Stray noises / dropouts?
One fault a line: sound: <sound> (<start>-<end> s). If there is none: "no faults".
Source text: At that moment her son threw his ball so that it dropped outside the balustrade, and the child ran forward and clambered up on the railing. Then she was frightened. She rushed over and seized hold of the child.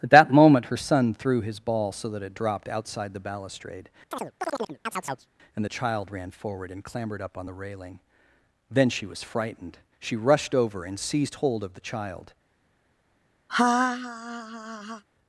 sound: chirp (4.1-5.3 s)
sound: laugh (13.5-15.0 s)